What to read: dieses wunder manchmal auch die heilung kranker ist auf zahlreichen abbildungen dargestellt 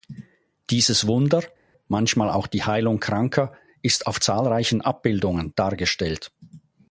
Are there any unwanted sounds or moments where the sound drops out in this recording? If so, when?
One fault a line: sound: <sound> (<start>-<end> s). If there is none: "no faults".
no faults